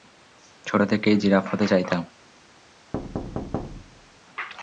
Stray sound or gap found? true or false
true